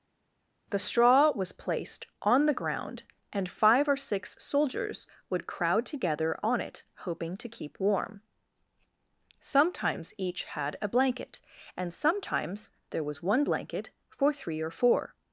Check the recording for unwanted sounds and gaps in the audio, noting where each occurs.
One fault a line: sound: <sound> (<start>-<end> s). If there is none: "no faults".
no faults